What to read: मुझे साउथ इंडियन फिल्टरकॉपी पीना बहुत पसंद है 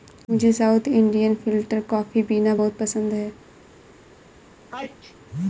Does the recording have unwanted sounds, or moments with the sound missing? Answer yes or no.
yes